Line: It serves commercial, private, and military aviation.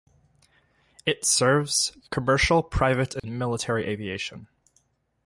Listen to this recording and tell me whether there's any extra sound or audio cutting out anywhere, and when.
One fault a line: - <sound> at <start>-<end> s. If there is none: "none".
- dropout at 3.2-3.2 s